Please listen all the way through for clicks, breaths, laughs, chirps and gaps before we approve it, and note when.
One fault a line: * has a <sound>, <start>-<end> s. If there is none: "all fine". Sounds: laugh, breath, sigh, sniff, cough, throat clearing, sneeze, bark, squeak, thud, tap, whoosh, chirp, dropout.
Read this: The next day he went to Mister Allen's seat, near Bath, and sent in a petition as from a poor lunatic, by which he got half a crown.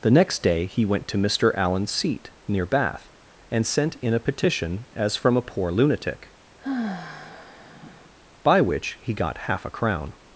* has a sigh, 6.6-8.1 s